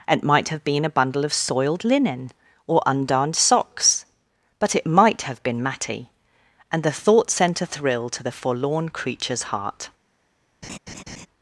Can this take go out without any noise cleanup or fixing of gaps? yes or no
no